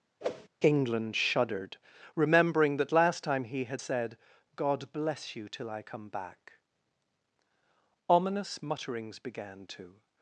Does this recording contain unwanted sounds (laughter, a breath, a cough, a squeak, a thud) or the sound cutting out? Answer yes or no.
yes